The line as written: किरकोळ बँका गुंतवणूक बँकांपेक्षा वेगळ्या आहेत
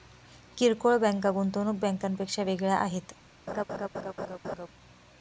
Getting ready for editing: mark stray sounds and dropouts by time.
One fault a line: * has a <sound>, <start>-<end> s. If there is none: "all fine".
* has a laugh, 3.5-4.7 s